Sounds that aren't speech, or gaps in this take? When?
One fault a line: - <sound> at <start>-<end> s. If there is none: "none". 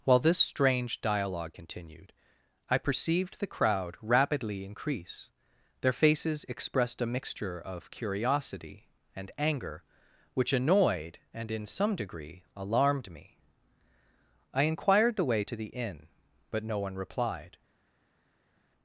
none